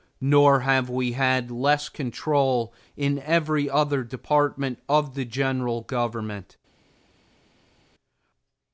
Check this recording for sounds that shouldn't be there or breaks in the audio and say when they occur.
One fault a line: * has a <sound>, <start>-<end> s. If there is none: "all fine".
all fine